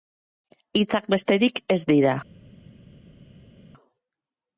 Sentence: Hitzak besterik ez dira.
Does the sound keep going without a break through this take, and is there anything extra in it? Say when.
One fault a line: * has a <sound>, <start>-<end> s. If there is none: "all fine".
all fine